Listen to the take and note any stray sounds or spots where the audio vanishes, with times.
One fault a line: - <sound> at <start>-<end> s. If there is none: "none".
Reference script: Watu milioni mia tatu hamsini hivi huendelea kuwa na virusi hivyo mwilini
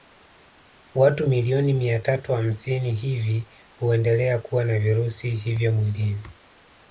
none